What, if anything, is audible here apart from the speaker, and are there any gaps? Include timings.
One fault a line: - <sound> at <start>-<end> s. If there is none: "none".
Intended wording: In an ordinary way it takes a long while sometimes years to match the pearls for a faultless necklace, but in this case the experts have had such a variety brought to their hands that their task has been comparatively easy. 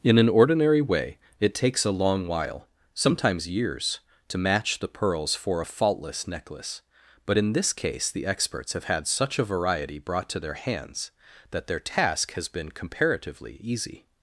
none